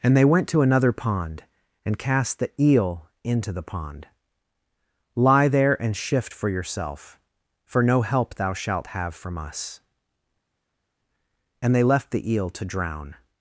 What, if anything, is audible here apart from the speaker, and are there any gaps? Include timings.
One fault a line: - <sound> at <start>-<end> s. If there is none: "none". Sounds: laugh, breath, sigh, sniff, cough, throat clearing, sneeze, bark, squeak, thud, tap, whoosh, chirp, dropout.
none